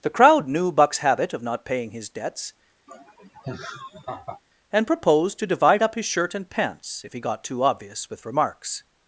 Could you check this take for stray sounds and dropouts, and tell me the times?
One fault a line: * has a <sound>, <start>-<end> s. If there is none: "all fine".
* has a laugh, 2.9-4.4 s